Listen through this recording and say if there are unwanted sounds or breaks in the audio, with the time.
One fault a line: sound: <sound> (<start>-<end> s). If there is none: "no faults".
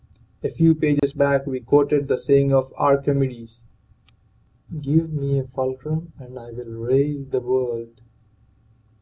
sound: dropout (1.0-1.0 s)